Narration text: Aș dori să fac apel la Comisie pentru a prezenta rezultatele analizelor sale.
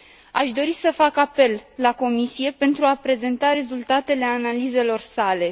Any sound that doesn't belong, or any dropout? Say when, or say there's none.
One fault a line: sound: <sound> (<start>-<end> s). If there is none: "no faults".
no faults